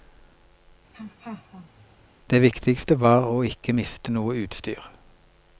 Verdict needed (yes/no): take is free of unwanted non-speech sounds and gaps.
no